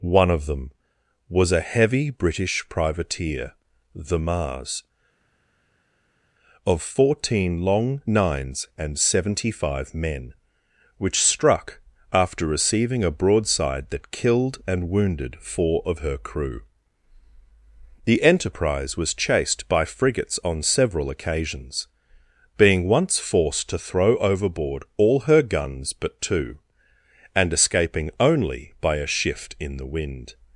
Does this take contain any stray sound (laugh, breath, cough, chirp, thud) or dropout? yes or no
no